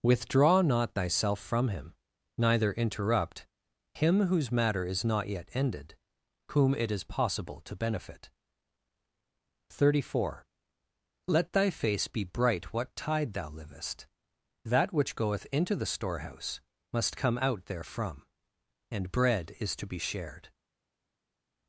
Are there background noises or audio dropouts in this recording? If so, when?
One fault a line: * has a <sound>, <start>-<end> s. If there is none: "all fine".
all fine